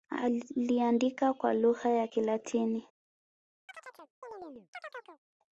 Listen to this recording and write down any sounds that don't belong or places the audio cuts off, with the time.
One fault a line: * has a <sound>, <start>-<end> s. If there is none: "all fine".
* has a chirp, 3.7-5.2 s